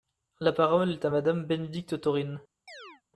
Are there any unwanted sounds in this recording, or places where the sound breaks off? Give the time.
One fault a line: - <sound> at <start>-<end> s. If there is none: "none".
- chirp at 2.7-3.0 s